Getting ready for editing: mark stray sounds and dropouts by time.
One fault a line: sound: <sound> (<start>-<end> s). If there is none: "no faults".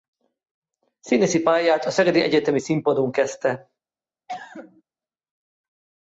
sound: cough (4.3-4.8 s)